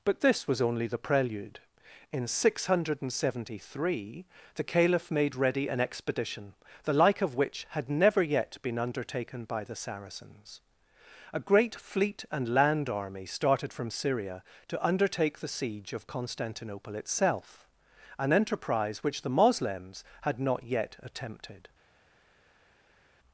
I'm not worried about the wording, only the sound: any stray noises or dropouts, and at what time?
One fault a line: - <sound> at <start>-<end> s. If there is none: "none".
none